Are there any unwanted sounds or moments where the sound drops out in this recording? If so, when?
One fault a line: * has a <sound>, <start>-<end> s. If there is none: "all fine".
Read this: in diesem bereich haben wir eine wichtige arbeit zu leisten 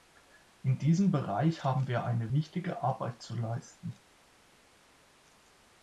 all fine